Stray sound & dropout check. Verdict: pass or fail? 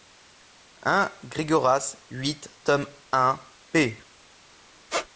fail